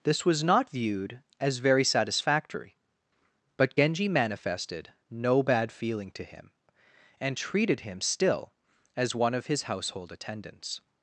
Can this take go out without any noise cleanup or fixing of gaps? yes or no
yes